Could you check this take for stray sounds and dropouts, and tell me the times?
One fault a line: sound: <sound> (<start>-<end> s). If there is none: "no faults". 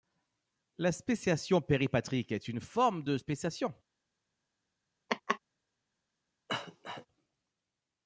sound: laugh (5.1-5.4 s)
sound: cough (6.5-7.1 s)